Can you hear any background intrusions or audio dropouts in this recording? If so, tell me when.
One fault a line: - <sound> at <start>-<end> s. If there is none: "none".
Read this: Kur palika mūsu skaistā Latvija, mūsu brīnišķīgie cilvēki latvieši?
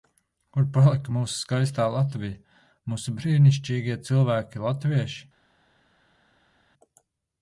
none